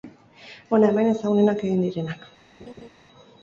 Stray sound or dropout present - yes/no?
yes